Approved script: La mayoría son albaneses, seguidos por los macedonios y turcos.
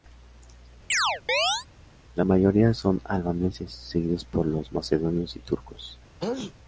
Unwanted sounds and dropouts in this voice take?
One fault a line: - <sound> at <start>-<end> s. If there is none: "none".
- chirp at 0.9-1.7 s
- sneeze at 6.2-6.5 s